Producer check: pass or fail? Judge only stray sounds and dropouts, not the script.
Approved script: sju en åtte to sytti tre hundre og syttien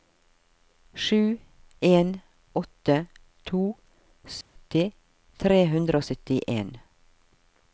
fail